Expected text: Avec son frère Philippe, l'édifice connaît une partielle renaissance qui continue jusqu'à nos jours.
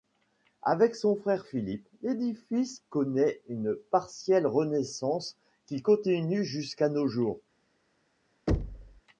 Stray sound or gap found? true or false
true